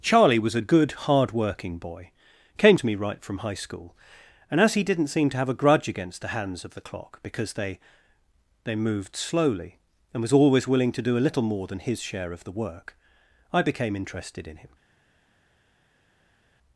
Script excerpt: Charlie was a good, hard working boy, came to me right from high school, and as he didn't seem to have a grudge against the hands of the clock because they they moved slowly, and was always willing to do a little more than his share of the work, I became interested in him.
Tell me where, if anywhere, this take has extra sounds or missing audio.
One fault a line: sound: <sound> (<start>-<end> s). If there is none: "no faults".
no faults